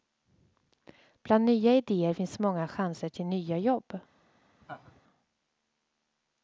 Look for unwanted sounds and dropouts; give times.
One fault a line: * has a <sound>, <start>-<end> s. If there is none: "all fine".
* has a laugh, 4.6-5.0 s